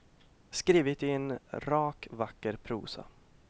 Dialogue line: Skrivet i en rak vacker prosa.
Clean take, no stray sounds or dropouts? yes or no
yes